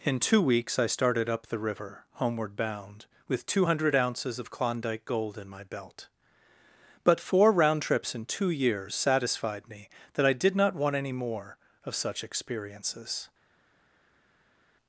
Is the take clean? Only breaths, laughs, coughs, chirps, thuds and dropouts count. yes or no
yes